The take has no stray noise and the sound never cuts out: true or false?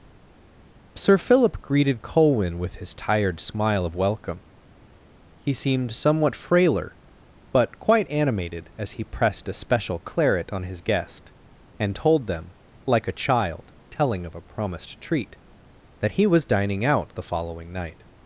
true